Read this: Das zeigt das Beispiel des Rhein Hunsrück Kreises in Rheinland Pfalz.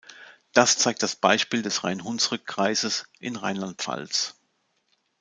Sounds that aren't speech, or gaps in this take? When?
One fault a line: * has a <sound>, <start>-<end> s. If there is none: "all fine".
all fine